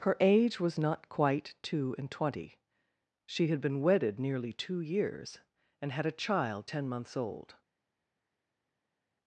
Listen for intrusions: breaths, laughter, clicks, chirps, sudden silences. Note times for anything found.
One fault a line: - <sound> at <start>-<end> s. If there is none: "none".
none